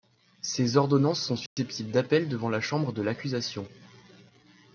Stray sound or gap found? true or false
true